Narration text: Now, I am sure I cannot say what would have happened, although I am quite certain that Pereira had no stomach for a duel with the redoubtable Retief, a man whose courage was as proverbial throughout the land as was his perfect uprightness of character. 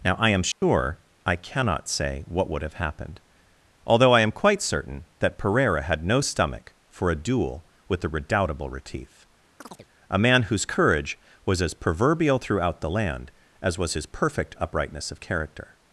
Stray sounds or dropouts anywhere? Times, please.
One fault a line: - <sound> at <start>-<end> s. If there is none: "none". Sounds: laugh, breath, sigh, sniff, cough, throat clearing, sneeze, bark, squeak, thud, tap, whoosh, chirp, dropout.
- dropout at 0.5-0.6 s
- chirp at 9.6-9.9 s